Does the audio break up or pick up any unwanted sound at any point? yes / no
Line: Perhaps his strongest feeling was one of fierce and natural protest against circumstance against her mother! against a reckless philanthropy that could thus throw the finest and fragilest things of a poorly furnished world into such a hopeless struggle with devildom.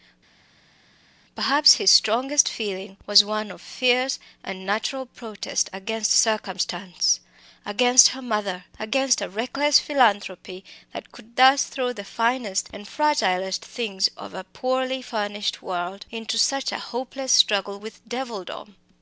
no